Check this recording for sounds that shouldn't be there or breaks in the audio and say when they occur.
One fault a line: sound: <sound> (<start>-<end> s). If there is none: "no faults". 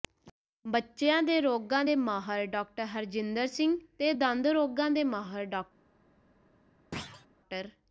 sound: thud (6.9-7.3 s)